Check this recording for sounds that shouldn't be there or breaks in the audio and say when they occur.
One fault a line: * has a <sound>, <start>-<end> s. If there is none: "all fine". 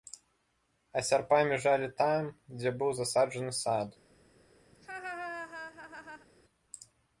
* has a laugh, 4.7-6.3 s